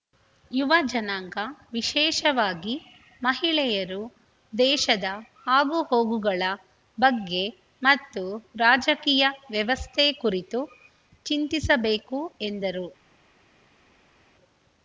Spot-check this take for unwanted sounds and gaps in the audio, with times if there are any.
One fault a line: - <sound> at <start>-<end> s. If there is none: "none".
none